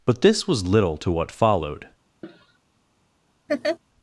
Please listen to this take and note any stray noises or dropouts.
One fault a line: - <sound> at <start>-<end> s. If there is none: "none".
- cough at 2.2-2.6 s
- laugh at 3.5-3.8 s